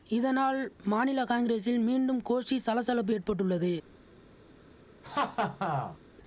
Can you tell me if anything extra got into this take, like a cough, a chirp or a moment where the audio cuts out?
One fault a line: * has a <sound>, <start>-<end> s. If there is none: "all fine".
* has a laugh, 5.0-6.0 s